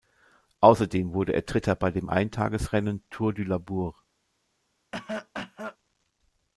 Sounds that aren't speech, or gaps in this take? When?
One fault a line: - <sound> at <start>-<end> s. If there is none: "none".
- cough at 4.9-5.8 s